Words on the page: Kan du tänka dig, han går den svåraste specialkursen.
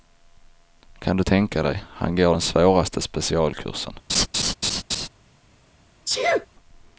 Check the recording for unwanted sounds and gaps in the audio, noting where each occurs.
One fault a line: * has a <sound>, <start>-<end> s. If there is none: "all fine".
* has a laugh, 4.1-5.1 s
* has a sneeze, 6.1-6.5 s